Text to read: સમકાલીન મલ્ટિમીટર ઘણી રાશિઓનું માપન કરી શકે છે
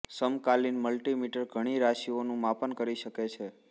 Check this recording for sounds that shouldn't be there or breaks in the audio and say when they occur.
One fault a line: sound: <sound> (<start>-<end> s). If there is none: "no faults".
no faults